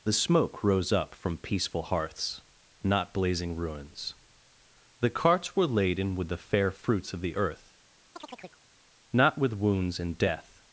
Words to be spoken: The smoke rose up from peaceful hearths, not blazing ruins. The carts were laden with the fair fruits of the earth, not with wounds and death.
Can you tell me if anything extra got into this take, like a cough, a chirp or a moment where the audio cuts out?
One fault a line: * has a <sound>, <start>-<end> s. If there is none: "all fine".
* has a chirp, 8.2-8.6 s